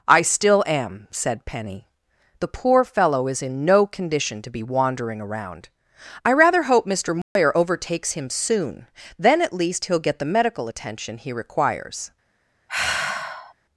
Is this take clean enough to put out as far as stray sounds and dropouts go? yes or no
no